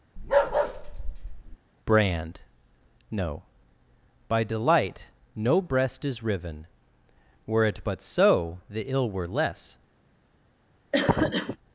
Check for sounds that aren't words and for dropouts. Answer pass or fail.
fail